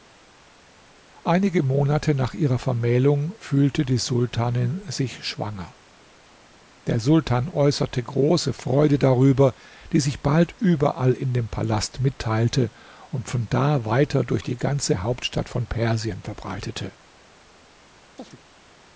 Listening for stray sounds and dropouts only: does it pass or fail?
fail